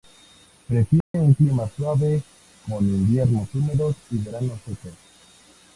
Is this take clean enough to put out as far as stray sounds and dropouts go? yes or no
no